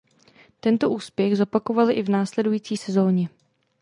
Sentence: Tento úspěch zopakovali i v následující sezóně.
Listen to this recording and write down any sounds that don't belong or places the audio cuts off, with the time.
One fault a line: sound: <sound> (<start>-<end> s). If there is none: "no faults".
no faults